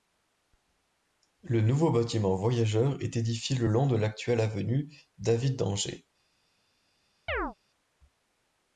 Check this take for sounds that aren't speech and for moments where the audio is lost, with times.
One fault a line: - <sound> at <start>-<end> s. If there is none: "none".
- chirp at 7.3-7.5 s